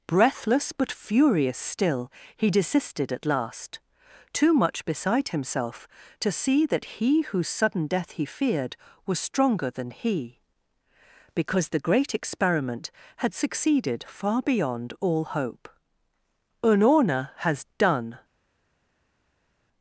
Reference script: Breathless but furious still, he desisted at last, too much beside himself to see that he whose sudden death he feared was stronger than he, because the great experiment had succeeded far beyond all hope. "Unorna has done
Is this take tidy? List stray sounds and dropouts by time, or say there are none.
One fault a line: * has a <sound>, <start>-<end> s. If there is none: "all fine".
all fine